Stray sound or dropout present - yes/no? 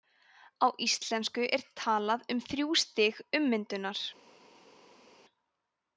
no